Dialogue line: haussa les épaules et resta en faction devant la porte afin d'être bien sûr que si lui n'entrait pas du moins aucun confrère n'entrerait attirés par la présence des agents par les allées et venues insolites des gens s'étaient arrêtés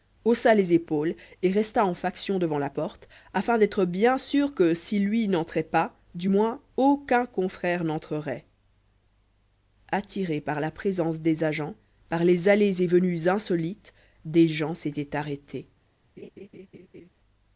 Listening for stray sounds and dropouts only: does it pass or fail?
fail